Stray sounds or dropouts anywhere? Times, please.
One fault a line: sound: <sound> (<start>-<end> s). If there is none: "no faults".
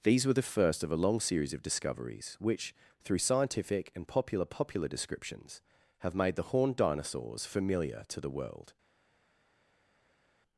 no faults